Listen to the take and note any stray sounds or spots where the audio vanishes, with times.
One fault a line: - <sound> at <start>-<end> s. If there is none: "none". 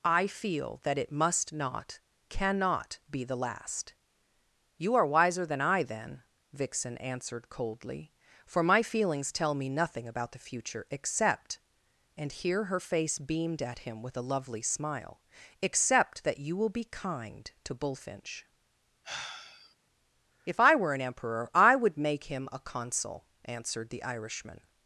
- sigh at 19.0-19.8 s